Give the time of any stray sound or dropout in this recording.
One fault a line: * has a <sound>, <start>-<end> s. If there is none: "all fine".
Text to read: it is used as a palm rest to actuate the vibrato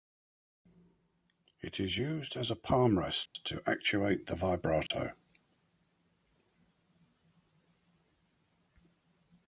* has a dropout, 3.3-3.4 s
* has a dropout, 4.9-4.9 s